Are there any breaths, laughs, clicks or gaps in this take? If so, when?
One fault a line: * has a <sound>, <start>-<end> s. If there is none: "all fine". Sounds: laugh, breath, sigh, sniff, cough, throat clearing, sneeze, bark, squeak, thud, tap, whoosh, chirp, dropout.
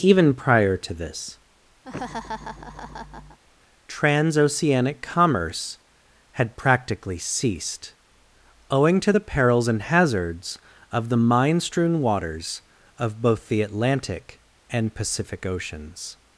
* has a laugh, 1.8-3.4 s